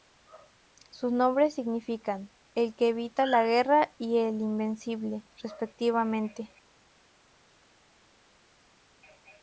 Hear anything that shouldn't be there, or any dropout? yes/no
no